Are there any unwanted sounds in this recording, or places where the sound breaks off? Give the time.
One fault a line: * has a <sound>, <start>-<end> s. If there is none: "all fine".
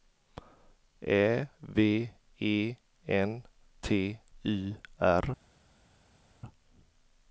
all fine